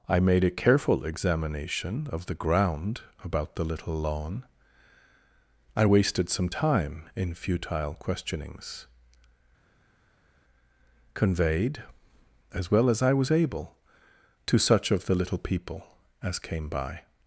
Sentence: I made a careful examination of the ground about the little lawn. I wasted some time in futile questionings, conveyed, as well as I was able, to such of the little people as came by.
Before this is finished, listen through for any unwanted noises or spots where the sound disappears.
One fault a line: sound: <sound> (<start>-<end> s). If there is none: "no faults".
no faults